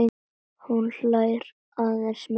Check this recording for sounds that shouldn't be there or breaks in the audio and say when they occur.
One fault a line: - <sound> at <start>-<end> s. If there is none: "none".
none